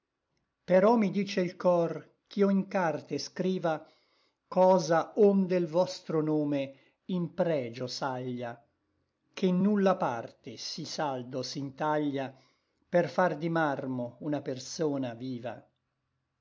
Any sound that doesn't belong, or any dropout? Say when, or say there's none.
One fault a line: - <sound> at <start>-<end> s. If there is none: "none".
none